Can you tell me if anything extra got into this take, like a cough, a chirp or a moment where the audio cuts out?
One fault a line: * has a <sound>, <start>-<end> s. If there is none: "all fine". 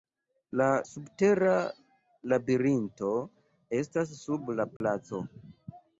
* has a dropout, 4.8-4.8 s